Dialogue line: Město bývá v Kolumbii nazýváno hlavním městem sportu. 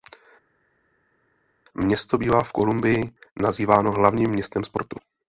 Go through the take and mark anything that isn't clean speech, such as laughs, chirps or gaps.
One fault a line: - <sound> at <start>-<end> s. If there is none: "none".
none